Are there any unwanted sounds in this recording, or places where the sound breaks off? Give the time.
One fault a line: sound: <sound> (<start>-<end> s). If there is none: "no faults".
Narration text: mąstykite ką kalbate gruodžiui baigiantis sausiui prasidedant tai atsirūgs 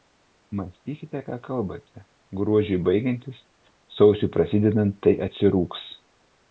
no faults